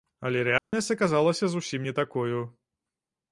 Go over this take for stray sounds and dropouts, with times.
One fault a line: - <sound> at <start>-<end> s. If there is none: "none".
- dropout at 0.6-0.7 s